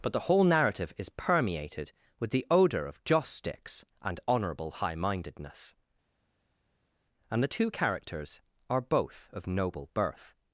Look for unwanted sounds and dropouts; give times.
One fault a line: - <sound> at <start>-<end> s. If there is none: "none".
none